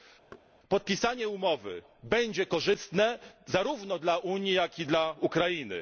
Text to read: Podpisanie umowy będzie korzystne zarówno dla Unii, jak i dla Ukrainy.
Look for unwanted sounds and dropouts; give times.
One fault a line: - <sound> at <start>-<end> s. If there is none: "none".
- thud at 0.3-0.5 s